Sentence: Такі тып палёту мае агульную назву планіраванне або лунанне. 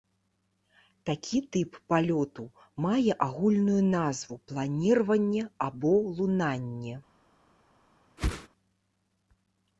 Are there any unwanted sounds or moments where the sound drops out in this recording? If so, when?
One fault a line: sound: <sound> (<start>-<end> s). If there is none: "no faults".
sound: whoosh (8.2-8.5 s)